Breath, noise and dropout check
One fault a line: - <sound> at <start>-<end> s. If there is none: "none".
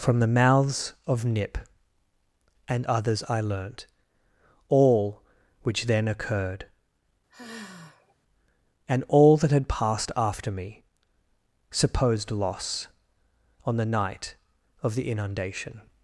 - sigh at 7.3-8.2 s